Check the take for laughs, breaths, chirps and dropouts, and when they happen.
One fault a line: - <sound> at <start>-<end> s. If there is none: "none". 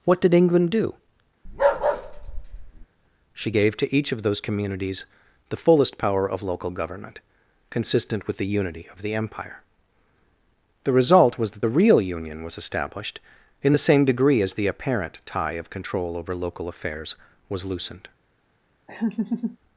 - bark at 1.4-2.9 s
- laugh at 18.9-19.6 s